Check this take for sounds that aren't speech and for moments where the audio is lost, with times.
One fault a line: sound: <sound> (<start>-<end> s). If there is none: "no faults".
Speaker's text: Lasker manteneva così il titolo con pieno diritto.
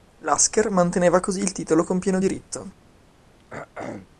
sound: throat clearing (3.4-4.1 s)